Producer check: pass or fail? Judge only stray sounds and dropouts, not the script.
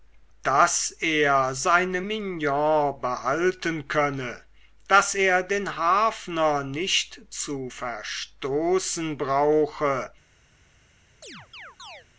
fail